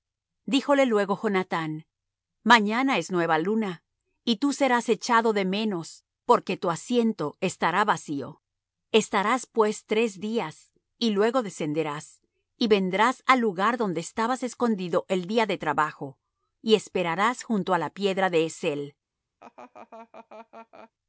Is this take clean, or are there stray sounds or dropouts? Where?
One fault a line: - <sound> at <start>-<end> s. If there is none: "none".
- laugh at 19.4-20.9 s